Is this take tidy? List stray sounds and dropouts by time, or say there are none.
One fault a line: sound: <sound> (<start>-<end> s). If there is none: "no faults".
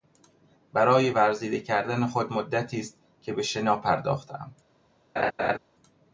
sound: laugh (5.2-5.6 s)